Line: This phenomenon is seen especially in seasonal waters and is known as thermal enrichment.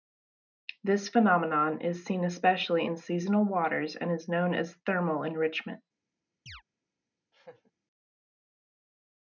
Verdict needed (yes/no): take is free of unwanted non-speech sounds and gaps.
no